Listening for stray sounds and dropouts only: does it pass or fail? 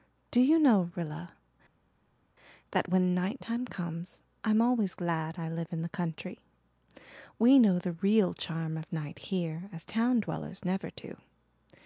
pass